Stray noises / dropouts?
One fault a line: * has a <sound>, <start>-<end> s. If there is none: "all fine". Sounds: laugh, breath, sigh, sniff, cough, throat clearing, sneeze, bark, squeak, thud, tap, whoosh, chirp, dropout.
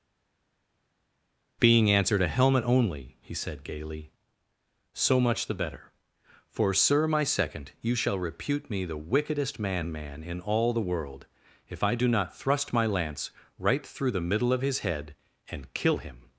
all fine